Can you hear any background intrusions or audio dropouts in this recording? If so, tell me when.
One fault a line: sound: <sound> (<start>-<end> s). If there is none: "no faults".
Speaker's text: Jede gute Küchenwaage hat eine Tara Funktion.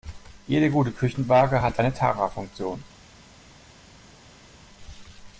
no faults